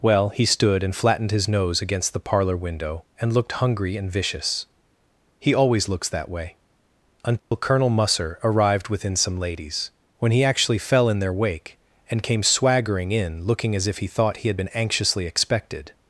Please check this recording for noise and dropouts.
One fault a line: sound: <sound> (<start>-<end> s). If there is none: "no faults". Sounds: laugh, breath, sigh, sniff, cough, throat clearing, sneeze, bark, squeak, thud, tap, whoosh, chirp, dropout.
sound: dropout (7.4-7.5 s)